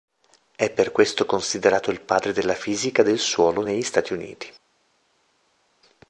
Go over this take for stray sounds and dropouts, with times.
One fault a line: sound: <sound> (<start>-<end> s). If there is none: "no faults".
no faults